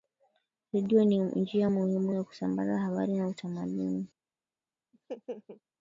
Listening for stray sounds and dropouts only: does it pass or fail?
fail